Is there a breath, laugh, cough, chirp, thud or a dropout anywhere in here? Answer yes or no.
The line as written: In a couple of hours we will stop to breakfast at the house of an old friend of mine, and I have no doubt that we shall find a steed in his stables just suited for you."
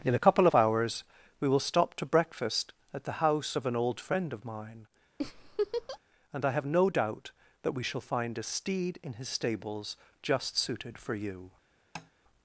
yes